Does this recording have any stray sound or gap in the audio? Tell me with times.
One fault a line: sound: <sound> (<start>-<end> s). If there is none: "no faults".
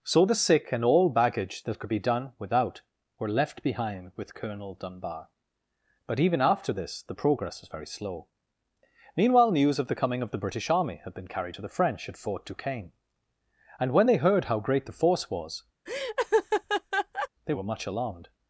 sound: laugh (15.9-17.3 s)